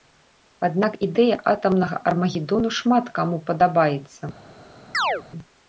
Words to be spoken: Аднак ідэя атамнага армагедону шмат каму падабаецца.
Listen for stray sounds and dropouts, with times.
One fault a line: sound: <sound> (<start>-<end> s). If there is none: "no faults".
sound: chirp (4.9-5.2 s)